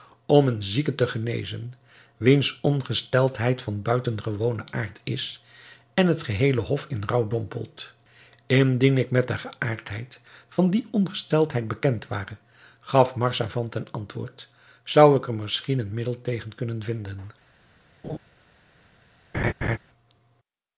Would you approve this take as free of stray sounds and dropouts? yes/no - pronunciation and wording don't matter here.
no